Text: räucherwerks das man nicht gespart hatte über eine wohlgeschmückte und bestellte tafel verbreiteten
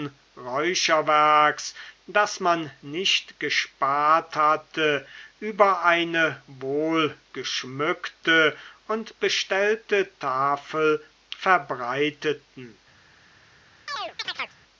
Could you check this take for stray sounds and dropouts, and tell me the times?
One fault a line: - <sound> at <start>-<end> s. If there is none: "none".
- chirp at 13.9-14.6 s